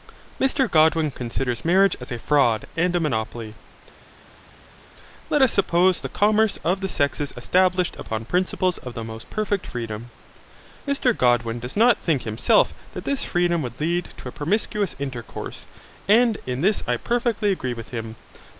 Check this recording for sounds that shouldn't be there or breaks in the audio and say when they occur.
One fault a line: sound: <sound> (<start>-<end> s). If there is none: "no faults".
no faults